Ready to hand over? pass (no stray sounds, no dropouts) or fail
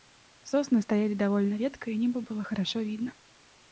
pass